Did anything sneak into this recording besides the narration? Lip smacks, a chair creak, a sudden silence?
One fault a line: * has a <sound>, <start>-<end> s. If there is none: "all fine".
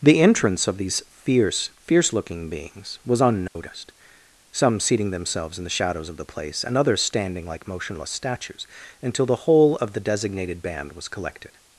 * has a dropout, 3.5-3.6 s